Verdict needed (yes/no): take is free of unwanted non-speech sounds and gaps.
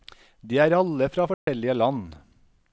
no